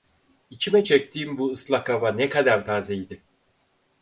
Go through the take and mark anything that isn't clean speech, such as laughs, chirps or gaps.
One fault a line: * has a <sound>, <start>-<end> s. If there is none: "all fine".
all fine